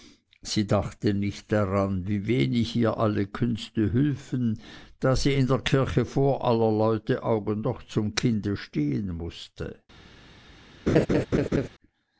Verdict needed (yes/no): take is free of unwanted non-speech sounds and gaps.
no